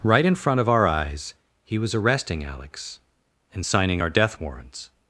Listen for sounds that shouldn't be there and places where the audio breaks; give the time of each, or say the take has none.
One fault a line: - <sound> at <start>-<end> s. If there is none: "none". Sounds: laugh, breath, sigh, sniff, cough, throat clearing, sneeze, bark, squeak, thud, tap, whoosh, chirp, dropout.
none